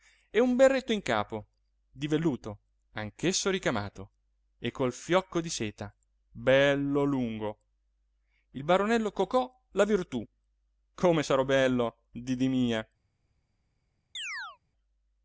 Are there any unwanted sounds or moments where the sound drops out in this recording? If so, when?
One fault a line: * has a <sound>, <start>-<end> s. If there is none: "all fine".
* has a chirp, 14.1-14.6 s